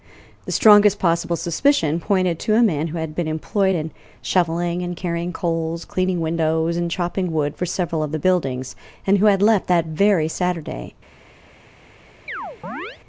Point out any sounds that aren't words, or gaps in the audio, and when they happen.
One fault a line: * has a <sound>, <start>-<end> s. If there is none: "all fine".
* has a chirp, 12.3-13.0 s